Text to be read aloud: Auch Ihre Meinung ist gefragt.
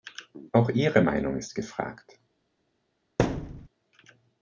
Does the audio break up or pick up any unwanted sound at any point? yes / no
yes